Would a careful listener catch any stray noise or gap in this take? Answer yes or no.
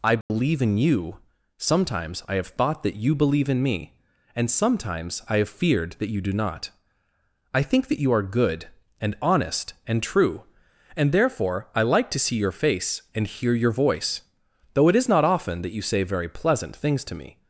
yes